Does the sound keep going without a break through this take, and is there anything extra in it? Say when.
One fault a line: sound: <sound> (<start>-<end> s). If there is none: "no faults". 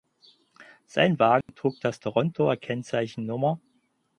sound: dropout (1.4-1.5 s)